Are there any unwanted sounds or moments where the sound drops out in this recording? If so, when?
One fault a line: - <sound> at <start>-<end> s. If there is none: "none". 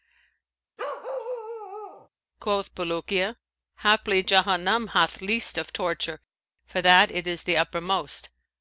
- bark at 0.8-2.1 s